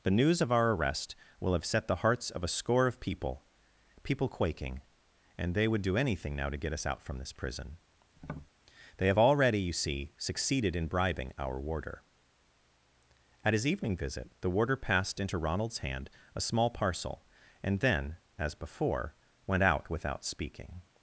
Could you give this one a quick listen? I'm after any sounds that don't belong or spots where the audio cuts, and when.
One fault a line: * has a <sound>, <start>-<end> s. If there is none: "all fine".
* has a tap, 8.2-8.5 s